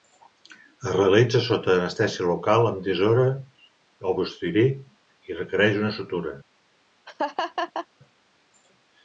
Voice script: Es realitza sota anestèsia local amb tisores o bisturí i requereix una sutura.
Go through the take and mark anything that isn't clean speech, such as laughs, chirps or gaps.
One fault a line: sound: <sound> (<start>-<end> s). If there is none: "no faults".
sound: laugh (7.1-7.9 s)